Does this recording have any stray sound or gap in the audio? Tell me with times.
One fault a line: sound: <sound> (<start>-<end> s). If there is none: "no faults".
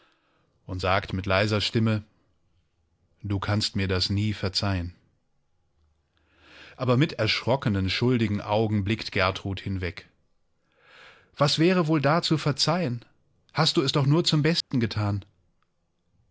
sound: dropout (14.6-14.7 s)